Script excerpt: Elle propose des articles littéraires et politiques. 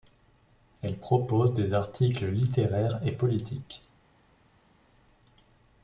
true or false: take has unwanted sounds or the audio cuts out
false